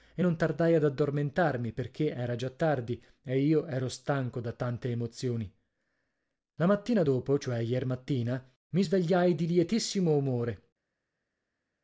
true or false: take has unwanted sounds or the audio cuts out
false